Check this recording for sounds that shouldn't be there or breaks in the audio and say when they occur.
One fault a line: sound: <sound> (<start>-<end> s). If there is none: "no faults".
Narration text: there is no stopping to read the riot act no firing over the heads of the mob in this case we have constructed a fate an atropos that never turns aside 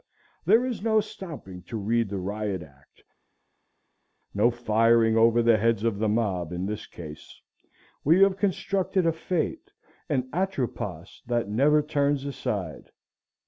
no faults